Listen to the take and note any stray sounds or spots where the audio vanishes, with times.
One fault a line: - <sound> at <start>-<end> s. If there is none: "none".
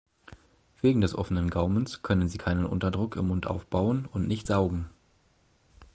none